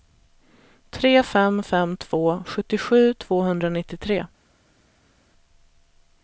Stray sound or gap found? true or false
false